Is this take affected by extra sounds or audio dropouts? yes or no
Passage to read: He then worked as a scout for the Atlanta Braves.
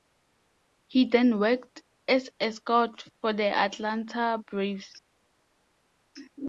no